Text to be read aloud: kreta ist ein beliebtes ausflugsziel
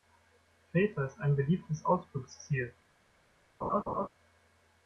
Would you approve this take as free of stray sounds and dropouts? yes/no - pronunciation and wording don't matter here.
no